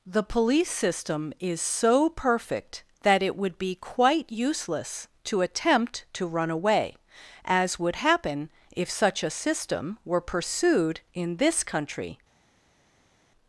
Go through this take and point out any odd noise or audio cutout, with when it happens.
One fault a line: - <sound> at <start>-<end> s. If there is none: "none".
none